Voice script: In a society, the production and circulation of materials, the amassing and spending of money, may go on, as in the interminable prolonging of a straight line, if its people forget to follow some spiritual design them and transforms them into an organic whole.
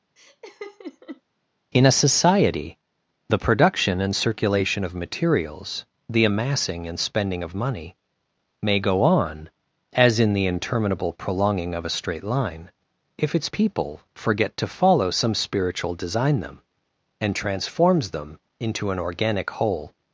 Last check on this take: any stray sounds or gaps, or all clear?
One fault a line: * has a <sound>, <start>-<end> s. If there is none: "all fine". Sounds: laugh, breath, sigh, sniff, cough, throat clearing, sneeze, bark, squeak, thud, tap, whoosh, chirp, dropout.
* has a laugh, 0.2-1.2 s